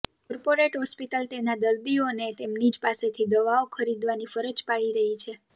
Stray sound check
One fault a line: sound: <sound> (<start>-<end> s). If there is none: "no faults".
no faults